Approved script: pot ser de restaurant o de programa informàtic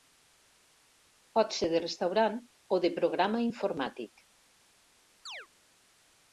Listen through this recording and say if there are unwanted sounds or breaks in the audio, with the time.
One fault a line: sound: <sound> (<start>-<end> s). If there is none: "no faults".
sound: chirp (5.3-5.5 s)